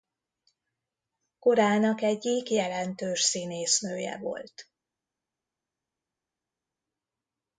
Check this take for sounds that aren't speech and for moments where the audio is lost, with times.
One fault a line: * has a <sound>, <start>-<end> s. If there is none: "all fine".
all fine